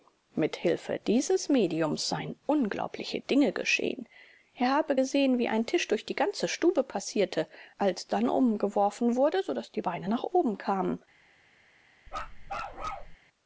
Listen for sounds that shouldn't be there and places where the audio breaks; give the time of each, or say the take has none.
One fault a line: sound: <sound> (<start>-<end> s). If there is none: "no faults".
sound: bark (12.1-13.2 s)